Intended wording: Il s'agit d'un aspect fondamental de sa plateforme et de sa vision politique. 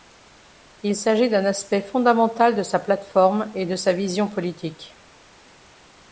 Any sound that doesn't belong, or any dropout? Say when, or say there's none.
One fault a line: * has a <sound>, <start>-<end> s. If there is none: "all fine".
all fine